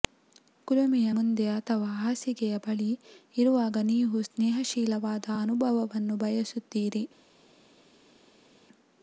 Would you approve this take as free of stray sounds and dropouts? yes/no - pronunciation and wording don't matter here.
yes